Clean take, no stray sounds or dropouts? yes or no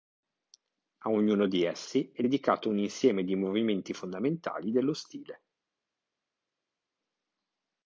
yes